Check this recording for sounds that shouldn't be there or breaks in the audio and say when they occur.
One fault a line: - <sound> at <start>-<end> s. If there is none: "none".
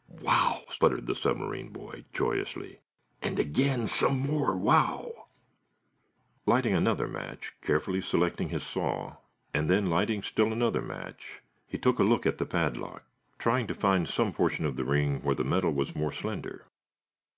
none